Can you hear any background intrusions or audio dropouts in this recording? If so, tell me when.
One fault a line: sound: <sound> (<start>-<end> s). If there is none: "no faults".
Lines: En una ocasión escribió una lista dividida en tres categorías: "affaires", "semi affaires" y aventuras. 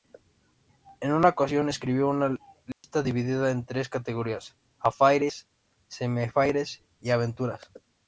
sound: dropout (2.7-2.8 s)